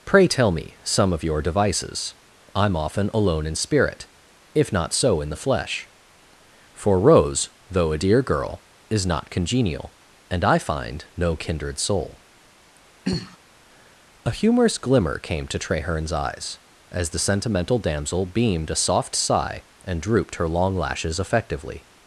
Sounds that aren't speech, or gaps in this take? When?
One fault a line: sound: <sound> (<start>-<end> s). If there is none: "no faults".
sound: throat clearing (13.1-13.4 s)